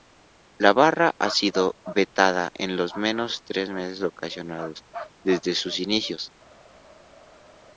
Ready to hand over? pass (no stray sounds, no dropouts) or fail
pass